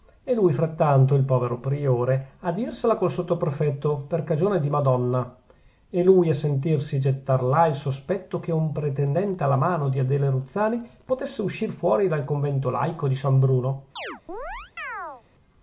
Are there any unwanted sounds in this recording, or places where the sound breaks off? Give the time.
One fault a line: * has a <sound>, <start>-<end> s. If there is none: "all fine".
* has a chirp, 14.0-15.2 s